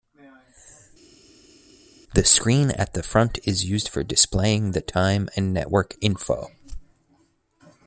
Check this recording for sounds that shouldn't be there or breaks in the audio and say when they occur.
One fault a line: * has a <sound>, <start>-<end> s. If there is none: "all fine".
all fine